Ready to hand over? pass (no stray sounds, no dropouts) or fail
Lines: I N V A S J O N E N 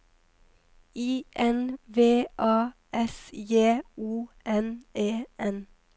pass